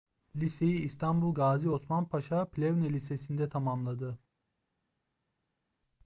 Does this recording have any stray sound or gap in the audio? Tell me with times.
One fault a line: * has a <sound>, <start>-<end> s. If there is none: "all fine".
all fine